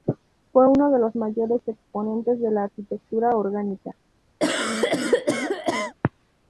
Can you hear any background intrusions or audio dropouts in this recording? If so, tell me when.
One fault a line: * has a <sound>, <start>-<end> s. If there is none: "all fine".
* has a cough, 4.4-5.9 s